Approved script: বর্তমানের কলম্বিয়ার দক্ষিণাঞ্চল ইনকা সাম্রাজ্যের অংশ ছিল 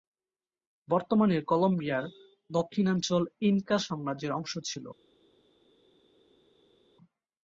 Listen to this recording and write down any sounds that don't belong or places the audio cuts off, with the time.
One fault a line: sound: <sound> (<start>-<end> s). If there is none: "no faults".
no faults